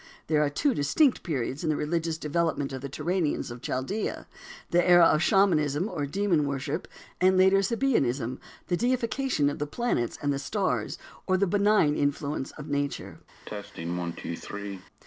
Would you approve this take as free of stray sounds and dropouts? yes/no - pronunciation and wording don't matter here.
no